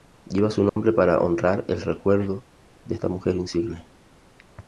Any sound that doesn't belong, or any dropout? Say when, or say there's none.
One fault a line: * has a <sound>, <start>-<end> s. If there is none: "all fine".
* has a dropout, 0.7-0.8 s